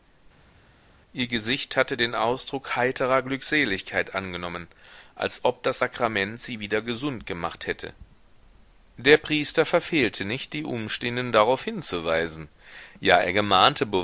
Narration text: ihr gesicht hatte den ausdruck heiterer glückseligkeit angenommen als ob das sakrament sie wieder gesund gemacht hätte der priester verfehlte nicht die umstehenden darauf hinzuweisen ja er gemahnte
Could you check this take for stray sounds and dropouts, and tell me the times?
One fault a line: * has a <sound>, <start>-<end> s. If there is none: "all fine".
all fine